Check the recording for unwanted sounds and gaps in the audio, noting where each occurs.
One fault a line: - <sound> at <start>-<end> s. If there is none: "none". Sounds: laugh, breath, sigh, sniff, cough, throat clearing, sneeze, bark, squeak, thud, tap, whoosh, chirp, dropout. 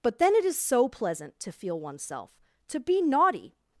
none